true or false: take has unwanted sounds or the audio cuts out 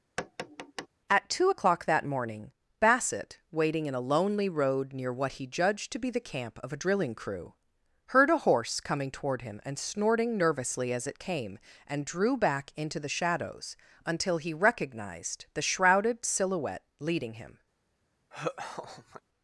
true